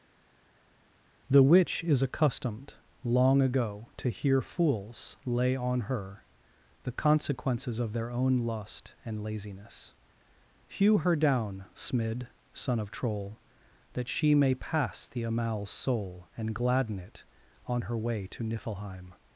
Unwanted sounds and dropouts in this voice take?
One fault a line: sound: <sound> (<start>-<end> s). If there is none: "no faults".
no faults